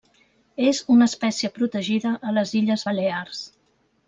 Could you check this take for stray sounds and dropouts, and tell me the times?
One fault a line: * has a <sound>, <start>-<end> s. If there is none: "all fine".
all fine